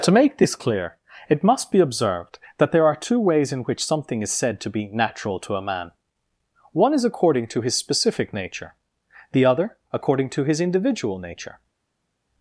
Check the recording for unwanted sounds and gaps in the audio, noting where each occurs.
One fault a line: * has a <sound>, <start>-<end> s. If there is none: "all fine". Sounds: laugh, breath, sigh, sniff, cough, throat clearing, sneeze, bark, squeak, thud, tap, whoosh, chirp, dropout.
all fine